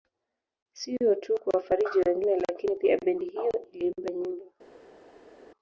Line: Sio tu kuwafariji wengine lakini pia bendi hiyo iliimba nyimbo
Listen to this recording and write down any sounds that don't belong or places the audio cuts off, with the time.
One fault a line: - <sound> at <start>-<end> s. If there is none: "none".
none